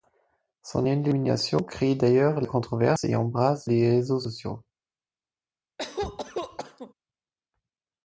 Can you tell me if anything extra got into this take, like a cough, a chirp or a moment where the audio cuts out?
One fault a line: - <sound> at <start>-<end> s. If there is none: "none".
- cough at 5.8-6.9 s